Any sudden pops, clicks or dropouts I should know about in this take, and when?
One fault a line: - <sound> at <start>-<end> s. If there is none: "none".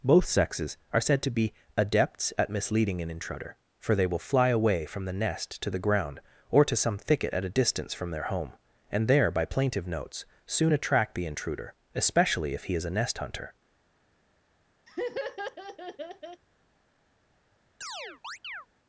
- laugh at 14.9-16.4 s
- chirp at 17.8-18.7 s